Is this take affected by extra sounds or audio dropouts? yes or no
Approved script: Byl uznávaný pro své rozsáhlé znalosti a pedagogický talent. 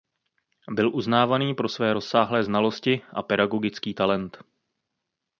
no